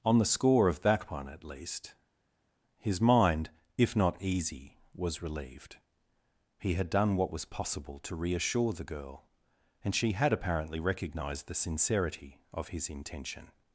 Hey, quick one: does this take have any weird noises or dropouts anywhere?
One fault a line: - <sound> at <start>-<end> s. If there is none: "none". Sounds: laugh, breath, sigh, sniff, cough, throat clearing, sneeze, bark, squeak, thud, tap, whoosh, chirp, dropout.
none